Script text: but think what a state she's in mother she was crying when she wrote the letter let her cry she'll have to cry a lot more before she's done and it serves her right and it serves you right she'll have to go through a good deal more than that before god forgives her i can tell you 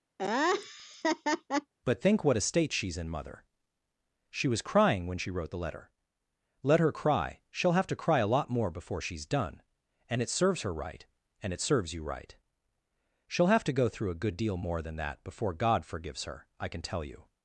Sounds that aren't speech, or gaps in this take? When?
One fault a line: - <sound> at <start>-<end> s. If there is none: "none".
- laugh at 0.2-1.7 s